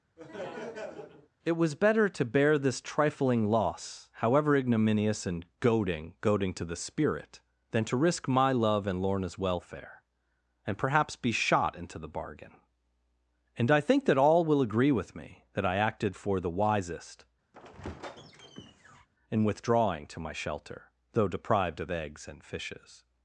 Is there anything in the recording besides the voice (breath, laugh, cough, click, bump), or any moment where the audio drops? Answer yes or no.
yes